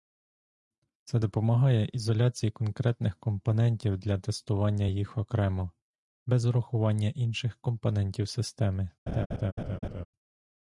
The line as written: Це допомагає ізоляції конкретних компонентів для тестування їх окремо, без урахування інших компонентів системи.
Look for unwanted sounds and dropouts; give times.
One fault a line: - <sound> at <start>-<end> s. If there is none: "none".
- laugh at 9.1-10.1 s